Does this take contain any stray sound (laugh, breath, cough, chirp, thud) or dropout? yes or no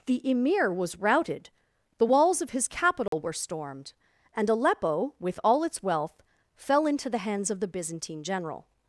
yes